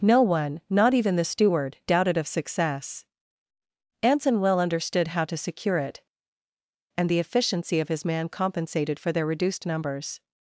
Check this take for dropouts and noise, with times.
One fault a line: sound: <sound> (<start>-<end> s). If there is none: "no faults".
no faults